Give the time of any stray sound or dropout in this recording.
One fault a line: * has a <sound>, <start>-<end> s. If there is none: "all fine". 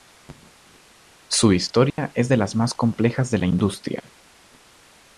* has a dropout, 1.9-2.0 s